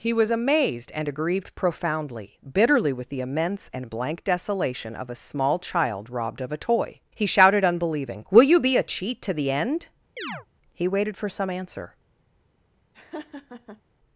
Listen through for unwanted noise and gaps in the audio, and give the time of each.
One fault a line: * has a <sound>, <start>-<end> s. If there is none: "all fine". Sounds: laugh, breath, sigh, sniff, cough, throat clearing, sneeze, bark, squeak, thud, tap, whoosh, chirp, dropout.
* has a chirp, 10.2-10.5 s
* has a laugh, 12.9-13.8 s